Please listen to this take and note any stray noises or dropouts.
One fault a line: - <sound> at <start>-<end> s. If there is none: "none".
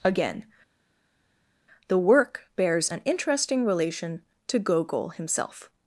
none